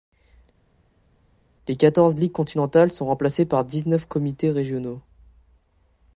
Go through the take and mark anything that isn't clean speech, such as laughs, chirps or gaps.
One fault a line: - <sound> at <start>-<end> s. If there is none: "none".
none